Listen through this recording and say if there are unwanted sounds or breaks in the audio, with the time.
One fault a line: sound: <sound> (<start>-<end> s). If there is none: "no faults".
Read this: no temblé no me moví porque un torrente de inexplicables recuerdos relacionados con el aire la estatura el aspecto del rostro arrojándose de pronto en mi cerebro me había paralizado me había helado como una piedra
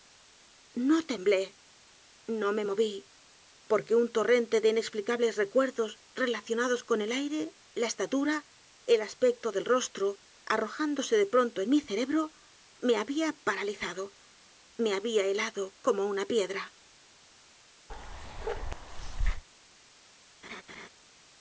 sound: bark (17.9-19.4 s)
sound: laugh (20.4-20.9 s)